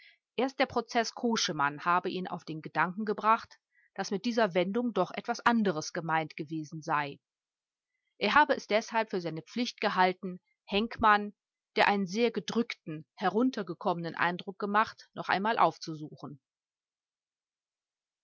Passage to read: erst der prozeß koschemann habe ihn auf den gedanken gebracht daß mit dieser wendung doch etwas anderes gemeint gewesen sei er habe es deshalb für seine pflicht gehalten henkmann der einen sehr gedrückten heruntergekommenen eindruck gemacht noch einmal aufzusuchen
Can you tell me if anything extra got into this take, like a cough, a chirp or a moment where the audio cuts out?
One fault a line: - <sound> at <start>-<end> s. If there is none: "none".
none